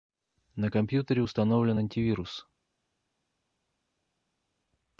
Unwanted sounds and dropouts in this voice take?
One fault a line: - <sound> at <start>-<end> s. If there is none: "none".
none